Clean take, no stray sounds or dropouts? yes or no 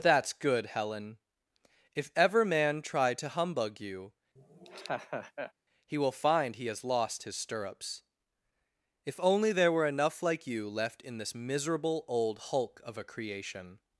no